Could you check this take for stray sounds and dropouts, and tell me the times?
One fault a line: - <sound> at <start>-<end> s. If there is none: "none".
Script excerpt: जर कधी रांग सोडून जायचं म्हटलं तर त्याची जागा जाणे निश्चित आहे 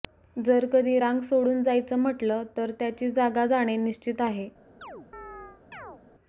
- chirp at 4.8-6.0 s